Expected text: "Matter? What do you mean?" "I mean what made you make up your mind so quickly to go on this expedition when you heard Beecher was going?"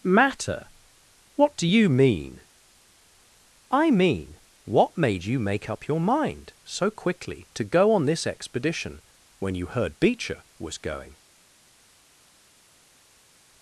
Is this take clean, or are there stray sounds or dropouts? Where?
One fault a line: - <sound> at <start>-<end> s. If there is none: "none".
none